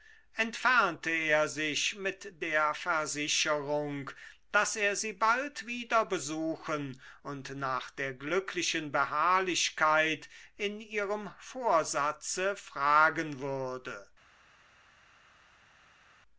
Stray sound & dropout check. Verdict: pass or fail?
pass